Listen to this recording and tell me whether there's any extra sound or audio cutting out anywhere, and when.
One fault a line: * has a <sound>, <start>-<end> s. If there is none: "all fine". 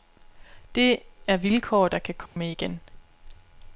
* has a dropout, 2.3-2.4 s